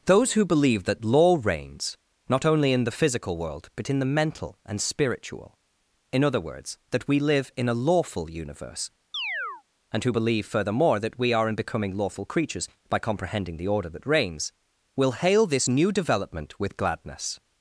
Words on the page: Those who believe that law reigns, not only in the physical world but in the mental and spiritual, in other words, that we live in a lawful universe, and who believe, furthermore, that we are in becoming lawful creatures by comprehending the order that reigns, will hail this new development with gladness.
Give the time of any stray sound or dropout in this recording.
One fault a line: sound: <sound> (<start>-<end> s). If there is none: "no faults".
sound: chirp (9.1-9.6 s)